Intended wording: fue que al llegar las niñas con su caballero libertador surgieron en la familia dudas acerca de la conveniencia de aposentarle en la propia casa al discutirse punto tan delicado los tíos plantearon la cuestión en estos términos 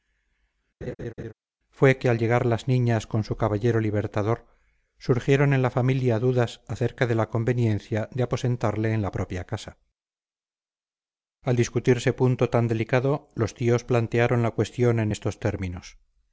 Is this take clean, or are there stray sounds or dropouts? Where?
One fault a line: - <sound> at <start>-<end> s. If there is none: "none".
- laugh at 0.8-1.3 s